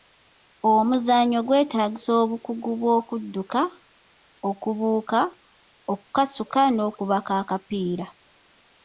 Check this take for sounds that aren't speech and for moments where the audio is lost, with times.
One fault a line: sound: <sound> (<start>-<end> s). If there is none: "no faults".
no faults